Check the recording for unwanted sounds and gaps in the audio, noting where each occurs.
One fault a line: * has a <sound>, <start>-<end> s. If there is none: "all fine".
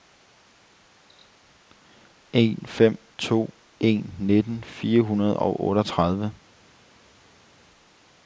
all fine